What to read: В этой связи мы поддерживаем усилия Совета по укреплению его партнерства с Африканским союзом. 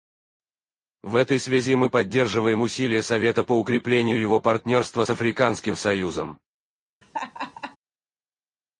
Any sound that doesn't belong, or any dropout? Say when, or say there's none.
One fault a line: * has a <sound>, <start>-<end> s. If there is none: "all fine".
* has a laugh, 7.0-7.8 s